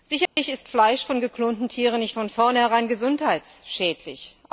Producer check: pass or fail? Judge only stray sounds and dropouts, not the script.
fail